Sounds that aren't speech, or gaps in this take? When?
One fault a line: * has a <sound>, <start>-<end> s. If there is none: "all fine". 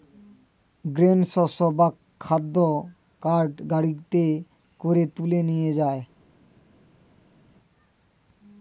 all fine